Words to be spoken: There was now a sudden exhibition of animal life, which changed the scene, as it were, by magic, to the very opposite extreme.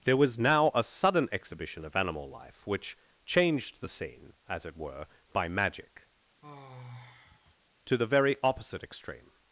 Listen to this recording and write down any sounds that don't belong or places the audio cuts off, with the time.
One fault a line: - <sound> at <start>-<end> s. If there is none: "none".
- sigh at 6.4-7.6 s